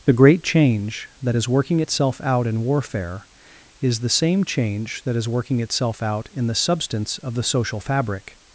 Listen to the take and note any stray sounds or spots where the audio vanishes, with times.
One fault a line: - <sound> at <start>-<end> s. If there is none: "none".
none